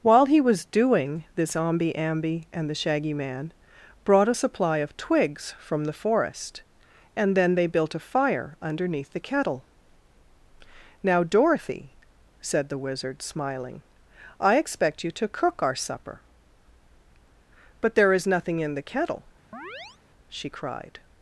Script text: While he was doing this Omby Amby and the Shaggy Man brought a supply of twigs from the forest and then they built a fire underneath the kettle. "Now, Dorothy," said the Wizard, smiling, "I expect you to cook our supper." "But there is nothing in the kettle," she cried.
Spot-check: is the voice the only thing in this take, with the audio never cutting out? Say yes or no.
no